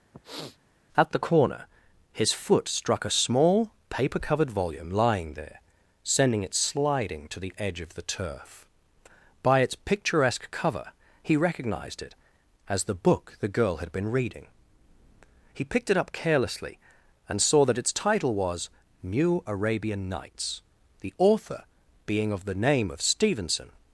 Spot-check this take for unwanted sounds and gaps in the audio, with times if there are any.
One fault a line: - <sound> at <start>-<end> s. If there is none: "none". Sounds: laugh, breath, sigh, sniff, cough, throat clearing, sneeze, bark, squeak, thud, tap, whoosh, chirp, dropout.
- sniff at 0.1-0.6 s